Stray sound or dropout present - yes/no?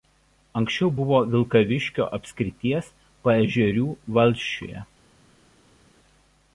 no